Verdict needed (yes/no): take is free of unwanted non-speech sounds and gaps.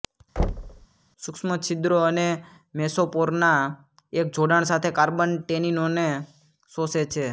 no